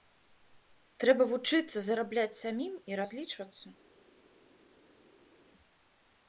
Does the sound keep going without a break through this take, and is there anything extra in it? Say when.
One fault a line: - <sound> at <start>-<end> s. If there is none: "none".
none